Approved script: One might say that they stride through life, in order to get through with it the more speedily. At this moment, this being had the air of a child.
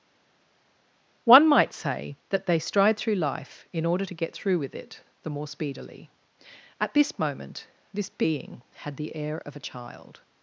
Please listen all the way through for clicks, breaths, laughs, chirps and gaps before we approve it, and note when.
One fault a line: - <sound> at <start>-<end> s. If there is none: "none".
none